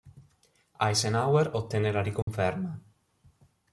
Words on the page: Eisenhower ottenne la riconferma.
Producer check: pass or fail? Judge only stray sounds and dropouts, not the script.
fail